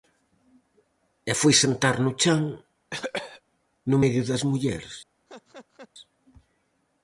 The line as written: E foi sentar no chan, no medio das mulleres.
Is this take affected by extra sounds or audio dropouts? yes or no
yes